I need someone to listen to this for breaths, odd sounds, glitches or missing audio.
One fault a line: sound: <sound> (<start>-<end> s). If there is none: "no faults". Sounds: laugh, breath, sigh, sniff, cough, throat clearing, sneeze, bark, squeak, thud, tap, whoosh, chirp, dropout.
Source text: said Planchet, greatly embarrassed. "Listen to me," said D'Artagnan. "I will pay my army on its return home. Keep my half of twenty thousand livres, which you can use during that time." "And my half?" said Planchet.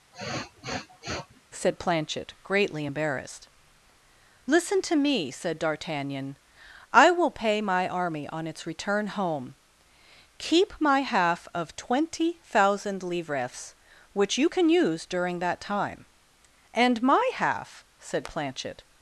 sound: sniff (0.1-1.4 s)